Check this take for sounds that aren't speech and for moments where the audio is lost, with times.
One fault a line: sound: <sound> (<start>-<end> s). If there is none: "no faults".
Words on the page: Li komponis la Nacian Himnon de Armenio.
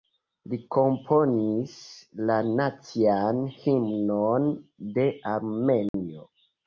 sound: dropout (5.9-5.9 s)